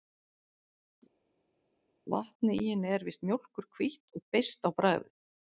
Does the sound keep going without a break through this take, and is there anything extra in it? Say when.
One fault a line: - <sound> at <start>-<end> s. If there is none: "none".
none